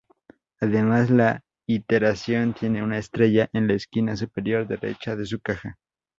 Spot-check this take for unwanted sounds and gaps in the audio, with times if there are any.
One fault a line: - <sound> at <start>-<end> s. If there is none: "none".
none